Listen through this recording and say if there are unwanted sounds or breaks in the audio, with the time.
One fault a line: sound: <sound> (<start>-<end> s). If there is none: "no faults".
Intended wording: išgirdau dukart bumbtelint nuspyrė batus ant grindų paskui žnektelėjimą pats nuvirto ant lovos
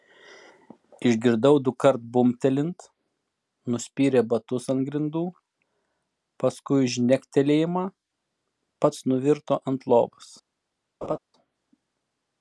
sound: laugh (11.0-11.2 s)